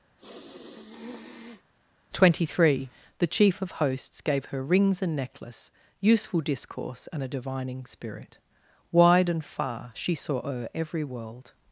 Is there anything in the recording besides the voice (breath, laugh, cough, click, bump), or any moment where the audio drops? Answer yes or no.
yes